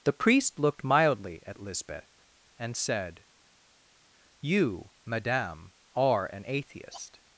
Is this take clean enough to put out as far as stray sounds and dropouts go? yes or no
yes